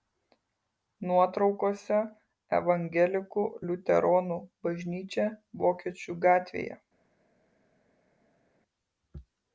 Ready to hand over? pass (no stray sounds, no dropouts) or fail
pass